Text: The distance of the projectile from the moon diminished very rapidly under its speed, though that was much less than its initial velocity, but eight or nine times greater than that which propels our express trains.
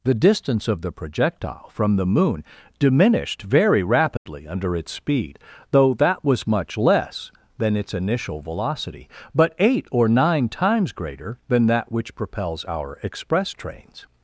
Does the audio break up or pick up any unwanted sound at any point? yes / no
yes